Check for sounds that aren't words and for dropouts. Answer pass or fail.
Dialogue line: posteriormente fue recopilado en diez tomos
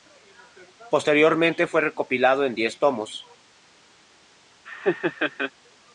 fail